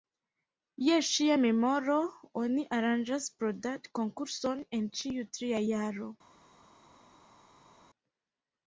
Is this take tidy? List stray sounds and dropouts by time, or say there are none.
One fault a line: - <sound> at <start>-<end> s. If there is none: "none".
none